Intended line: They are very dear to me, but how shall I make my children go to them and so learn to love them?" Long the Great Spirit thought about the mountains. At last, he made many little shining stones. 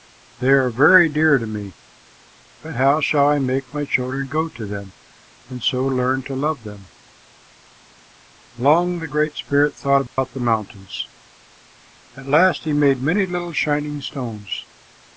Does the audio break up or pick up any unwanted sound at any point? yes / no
yes